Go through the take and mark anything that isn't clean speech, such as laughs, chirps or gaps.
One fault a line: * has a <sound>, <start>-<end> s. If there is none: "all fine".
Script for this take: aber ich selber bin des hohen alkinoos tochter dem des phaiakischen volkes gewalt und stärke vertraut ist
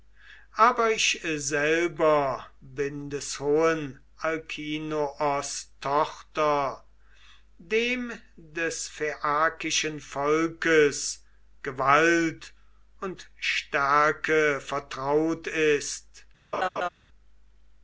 * has a laugh, 16.5-16.9 s